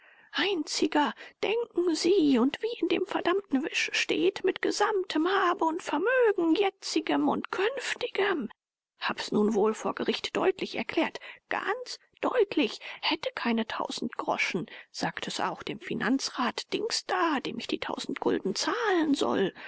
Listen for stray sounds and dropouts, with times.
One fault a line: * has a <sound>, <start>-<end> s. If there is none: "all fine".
all fine